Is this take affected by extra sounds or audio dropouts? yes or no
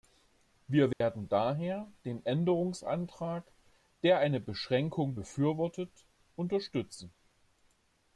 yes